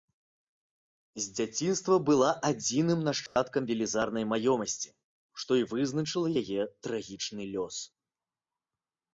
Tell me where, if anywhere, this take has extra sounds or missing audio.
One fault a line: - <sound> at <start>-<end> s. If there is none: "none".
- dropout at 3.3-3.4 s